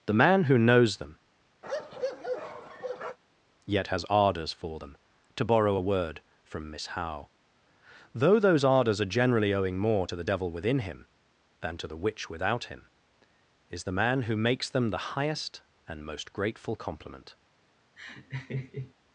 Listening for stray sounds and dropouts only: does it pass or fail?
fail